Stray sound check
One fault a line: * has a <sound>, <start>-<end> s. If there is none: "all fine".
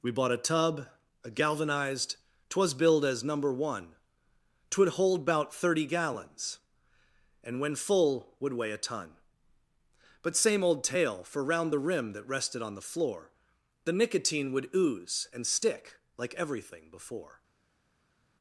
all fine